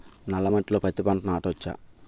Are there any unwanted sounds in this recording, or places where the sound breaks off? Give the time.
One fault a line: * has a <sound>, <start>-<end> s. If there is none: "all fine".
all fine